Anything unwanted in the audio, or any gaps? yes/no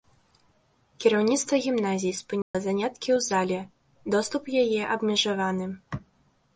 yes